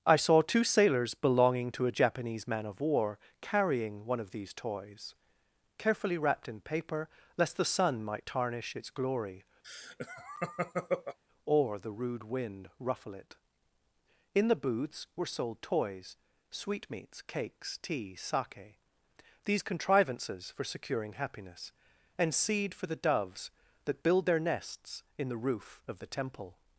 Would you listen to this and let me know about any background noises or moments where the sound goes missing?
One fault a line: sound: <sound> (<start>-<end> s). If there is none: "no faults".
sound: laugh (9.6-11.2 s)